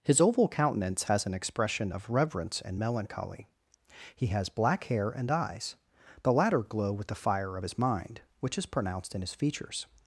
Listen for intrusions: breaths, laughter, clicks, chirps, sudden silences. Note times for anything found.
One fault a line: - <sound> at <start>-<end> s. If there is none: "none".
none